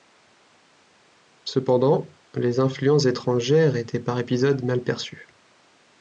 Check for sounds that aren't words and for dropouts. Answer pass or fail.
pass